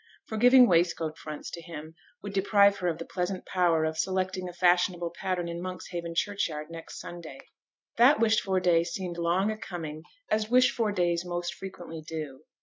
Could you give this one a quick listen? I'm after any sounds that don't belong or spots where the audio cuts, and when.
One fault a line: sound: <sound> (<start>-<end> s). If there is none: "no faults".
no faults